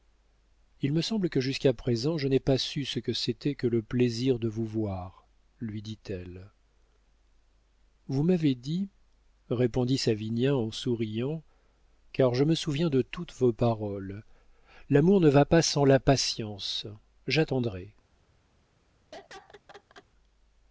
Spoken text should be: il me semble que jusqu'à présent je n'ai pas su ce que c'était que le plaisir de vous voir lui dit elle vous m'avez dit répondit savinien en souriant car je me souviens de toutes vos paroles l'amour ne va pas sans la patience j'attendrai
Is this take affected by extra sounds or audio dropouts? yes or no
yes